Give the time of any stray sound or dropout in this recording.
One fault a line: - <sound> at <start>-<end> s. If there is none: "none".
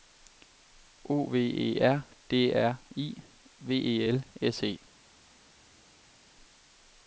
none